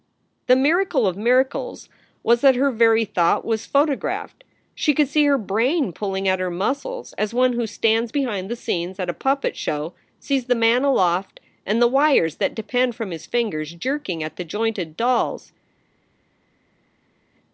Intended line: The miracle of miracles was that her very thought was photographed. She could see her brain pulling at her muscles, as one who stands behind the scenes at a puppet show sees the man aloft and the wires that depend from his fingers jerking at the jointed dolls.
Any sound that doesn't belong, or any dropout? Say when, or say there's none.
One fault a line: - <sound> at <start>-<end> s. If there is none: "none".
none